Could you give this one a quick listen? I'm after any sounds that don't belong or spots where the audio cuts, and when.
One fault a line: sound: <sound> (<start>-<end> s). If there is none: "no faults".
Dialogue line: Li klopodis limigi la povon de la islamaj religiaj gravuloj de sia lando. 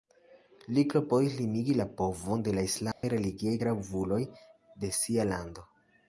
sound: dropout (2.9-3.0 s)